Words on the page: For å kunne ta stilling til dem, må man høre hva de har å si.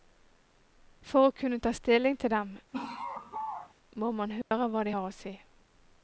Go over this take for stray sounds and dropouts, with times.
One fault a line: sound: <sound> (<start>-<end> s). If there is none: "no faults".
sound: laugh (2.7-3.7 s)
sound: dropout (4.4-4.5 s)